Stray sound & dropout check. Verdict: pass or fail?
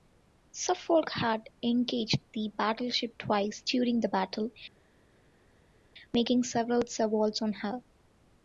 pass